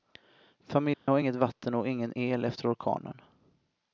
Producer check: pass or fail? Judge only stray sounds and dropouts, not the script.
fail